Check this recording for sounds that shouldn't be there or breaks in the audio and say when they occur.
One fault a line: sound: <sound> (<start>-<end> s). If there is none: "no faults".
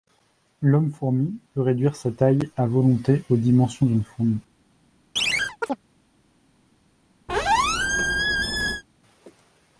sound: chirp (5.2-5.8 s)
sound: squeak (7.3-8.8 s)